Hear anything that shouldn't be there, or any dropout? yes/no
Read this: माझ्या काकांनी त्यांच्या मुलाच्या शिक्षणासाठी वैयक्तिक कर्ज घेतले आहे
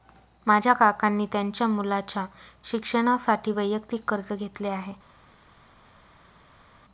no